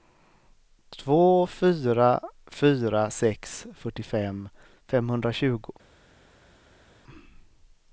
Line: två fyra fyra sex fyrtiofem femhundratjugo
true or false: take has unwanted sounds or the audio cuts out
false